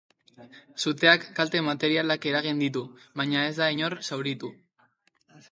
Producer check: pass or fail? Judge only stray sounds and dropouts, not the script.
pass